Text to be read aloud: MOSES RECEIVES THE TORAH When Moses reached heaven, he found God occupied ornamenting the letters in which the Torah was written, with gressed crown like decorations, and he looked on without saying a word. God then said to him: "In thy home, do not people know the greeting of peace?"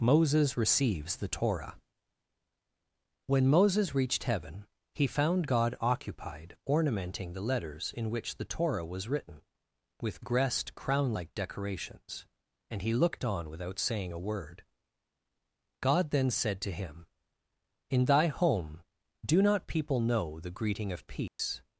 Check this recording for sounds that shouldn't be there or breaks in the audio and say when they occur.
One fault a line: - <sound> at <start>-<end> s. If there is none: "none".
- dropout at 21.3-21.4 s